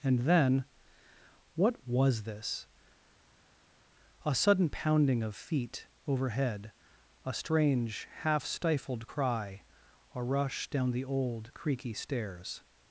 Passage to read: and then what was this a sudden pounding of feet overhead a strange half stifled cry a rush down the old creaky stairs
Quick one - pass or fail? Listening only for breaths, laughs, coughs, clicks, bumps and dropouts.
pass